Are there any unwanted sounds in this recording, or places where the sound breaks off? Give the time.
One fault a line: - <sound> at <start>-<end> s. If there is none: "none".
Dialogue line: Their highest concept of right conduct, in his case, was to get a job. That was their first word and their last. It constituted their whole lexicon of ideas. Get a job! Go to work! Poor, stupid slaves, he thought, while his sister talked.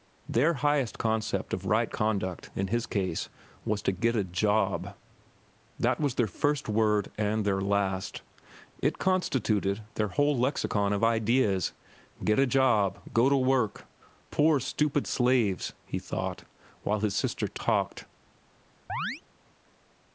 - chirp at 18.9-19.2 s